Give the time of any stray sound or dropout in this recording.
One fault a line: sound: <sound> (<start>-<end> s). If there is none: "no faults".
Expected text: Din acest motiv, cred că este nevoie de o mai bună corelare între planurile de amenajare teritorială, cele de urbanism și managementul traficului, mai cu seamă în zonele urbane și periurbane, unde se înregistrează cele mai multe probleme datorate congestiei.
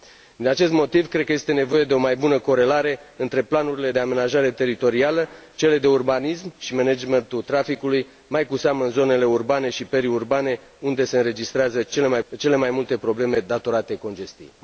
no faults